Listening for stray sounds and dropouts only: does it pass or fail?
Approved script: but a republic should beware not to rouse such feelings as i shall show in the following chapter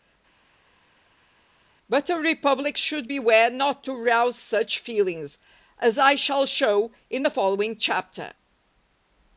pass